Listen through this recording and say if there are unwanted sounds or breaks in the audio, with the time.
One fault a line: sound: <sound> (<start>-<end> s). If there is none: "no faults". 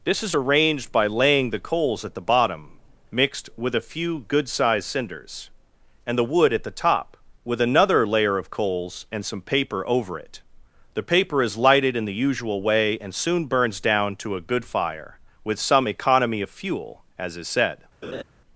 sound: laugh (18.0-18.2 s)